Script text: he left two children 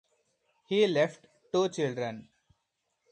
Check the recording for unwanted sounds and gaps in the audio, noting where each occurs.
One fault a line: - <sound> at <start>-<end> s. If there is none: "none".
none